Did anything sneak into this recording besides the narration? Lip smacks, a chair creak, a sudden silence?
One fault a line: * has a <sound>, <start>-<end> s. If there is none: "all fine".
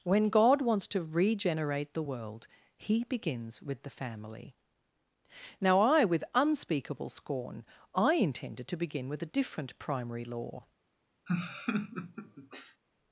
* has a laugh, 11.3-12.8 s